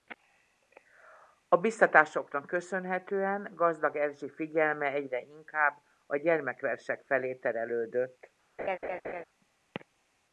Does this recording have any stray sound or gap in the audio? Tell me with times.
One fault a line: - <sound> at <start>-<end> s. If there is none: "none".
- laugh at 8.6-9.2 s